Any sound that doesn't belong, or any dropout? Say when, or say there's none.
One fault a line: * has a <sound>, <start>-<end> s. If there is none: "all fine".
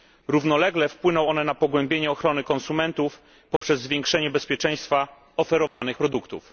* has a dropout, 3.6-3.6 s
* has a dropout, 5.7-5.8 s